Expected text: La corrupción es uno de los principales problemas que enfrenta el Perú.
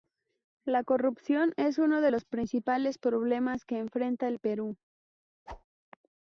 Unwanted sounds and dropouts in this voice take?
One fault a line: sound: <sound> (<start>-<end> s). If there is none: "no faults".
sound: whoosh (5.5-5.6 s)